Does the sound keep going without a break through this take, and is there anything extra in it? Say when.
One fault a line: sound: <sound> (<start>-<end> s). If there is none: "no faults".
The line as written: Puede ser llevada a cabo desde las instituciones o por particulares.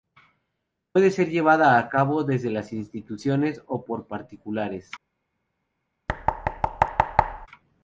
sound: thud (6.1-7.5 s)